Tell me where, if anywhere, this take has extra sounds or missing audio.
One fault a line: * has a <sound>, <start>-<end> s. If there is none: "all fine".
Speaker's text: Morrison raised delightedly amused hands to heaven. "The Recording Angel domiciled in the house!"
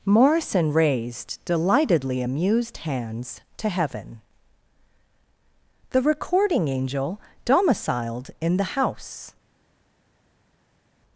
all fine